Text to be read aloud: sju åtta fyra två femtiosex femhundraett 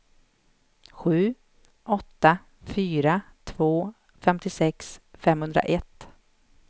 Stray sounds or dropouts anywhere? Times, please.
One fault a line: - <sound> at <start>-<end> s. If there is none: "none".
none